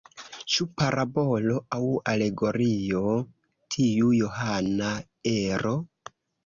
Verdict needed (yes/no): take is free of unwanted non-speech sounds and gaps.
yes